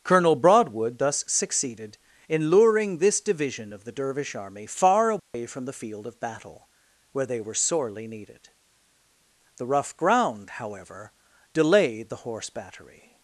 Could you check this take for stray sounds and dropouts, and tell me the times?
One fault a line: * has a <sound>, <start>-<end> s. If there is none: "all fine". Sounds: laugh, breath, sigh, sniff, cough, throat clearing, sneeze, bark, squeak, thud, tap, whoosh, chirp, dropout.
* has a dropout, 5.2-5.3 s